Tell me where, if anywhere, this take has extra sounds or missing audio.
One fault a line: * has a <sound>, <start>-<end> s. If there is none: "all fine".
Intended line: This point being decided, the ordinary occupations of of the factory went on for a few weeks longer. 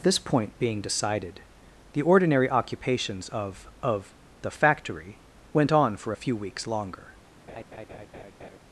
* has a laugh, 7.5-8.6 s